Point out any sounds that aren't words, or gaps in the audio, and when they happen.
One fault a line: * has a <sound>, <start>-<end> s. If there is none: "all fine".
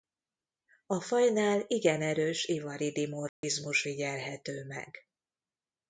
* has a dropout, 3.3-3.4 s